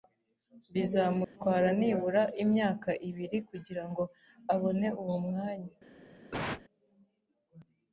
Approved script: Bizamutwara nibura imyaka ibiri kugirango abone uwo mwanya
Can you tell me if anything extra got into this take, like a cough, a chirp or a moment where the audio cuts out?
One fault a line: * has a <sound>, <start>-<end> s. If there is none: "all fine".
* has a dropout, 1.2-1.4 s
* has a cough, 6.3-6.6 s